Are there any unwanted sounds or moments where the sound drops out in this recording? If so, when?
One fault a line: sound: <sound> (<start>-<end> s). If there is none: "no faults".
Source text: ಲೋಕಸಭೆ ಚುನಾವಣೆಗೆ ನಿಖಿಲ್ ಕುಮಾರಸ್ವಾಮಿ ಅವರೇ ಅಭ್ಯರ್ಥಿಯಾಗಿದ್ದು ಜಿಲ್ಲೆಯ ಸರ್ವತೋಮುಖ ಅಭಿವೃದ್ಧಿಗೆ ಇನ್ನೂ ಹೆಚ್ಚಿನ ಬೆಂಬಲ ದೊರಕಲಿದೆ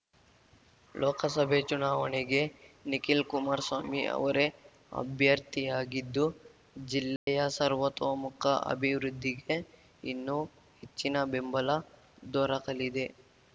sound: dropout (7.2-7.3 s)